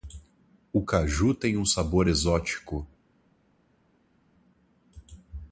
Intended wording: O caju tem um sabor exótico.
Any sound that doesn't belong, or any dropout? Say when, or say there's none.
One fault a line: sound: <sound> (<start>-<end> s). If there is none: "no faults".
no faults